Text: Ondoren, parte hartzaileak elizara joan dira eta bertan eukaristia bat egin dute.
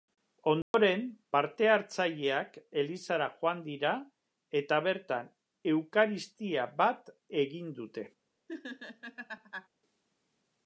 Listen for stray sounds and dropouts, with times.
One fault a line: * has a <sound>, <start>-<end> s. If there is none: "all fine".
* has a dropout, 0.6-0.7 s
* has a laugh, 8.5-9.7 s